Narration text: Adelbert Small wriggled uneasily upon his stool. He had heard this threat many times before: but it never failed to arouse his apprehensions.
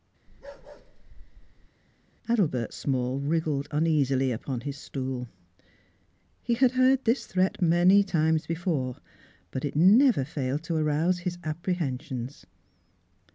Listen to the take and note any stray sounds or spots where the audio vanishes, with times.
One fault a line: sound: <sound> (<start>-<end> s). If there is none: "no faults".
sound: bark (0.3-1.7 s)